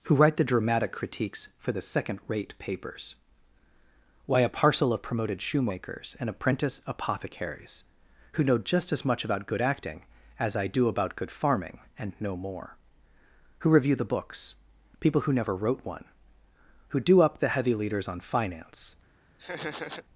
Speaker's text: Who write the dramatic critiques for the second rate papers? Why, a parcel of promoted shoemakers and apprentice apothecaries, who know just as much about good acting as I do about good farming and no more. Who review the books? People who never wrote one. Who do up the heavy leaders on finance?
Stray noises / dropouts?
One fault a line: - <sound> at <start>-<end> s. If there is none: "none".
- laugh at 19.4-20.0 s